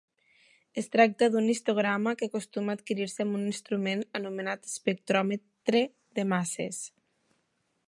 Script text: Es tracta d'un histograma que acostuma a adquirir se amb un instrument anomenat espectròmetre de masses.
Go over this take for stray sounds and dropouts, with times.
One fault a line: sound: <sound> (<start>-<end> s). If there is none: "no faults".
no faults